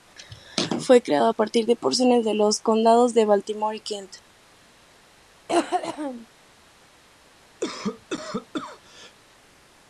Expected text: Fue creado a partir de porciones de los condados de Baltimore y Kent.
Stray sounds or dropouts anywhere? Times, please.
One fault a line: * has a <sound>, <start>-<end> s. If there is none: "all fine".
* has a cough, 5.5-6.3 s
* has a cough, 7.6-9.1 s